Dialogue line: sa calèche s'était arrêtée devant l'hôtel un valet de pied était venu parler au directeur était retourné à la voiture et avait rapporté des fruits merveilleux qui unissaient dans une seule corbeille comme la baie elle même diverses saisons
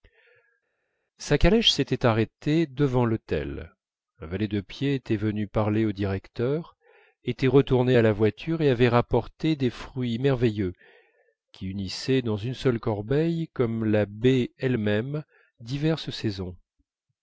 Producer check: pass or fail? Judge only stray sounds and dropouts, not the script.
pass